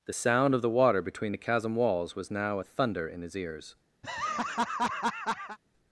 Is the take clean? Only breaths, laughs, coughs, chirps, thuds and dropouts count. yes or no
no